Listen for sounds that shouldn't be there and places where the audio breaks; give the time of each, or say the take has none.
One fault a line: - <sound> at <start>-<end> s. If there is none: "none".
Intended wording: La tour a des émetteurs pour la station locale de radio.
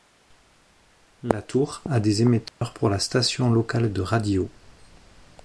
- dropout at 2.5-2.6 s